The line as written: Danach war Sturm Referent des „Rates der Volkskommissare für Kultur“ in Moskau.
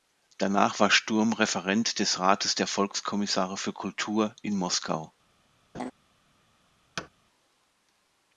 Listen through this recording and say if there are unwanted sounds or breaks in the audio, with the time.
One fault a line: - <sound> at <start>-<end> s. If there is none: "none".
- laugh at 5.7-5.9 s
- thud at 7.0-7.1 s